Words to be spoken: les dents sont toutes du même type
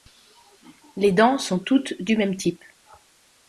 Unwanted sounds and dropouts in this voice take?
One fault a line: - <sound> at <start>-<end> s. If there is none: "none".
none